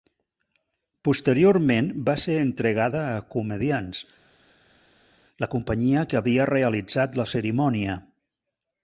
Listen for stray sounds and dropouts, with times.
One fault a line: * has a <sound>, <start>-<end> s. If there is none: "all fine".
all fine